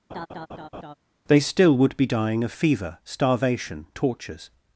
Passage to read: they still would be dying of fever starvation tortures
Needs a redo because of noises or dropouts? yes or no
yes